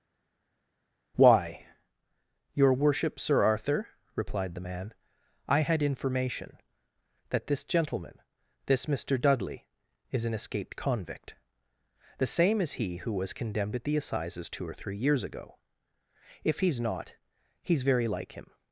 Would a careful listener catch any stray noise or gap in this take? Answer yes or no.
no